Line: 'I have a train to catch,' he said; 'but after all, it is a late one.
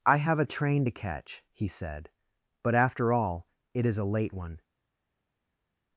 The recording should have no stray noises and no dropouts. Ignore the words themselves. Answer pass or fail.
pass